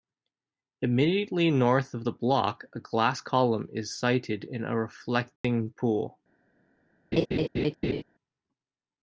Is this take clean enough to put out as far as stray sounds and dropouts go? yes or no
no